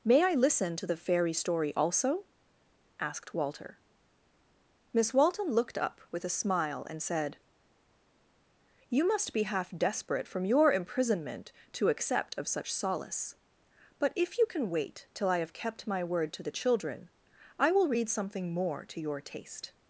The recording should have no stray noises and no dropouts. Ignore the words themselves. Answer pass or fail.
pass